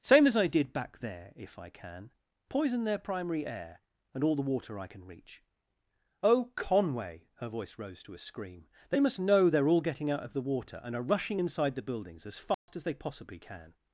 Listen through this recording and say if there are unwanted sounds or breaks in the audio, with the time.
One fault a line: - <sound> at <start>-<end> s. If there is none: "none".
- dropout at 12.5-12.7 s